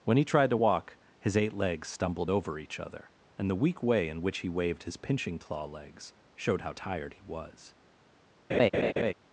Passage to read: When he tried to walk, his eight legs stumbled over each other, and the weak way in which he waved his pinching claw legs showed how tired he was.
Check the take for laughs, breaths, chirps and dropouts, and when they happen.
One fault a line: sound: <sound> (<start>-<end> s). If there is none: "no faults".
sound: laugh (8.5-9.1 s)